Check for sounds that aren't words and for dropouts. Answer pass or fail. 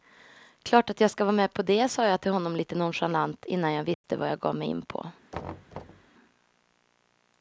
fail